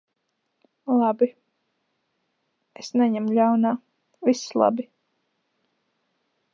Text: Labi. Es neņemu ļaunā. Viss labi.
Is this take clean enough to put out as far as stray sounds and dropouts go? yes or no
yes